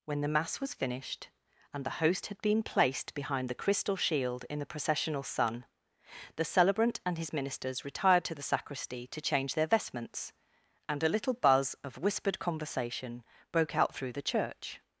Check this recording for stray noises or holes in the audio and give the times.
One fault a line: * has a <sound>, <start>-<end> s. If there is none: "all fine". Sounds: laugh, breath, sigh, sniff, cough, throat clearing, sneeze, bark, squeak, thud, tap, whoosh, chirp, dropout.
all fine